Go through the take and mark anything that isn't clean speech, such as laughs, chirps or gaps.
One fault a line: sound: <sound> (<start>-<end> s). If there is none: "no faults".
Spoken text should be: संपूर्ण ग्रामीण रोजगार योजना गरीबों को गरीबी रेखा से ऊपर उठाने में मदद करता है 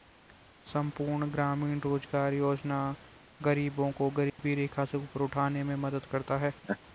sound: dropout (4.3-4.4 s)
sound: laugh (6.6-6.8 s)